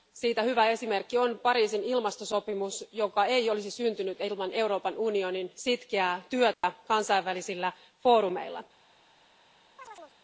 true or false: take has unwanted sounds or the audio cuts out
true